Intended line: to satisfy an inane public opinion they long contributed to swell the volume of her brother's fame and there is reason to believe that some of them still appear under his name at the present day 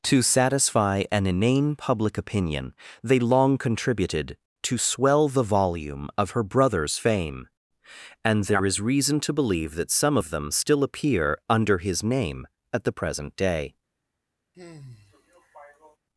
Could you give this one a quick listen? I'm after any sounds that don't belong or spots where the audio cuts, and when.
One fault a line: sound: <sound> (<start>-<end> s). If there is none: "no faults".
sound: sigh (14.5-16.0 s)